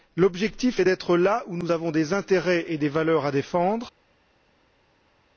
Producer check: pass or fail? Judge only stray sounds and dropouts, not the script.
pass